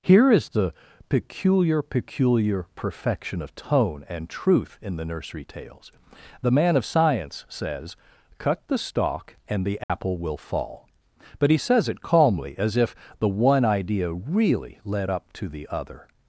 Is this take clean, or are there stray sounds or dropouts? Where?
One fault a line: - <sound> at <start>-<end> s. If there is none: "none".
- dropout at 9.8-9.9 s